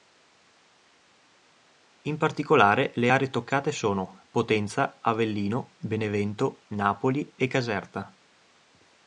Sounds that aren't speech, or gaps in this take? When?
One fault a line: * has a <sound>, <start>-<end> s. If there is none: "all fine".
all fine